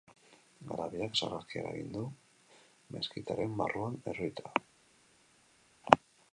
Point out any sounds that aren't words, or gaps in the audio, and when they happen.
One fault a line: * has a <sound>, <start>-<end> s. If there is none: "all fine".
all fine